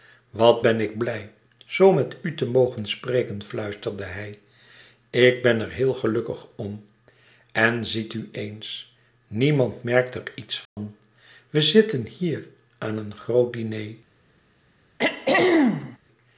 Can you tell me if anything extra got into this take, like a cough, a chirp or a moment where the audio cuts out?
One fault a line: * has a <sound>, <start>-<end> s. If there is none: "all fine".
* has a dropout, 10.7-10.8 s
* has a throat clearing, 15.0-16.0 s